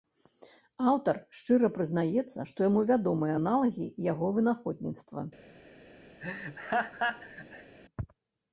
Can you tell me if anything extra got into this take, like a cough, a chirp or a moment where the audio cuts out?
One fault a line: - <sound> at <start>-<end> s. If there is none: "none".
- laugh at 6.2-7.7 s